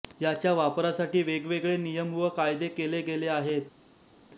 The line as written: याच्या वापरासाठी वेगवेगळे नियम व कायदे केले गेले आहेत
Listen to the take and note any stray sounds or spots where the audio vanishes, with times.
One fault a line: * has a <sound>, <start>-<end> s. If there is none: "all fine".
all fine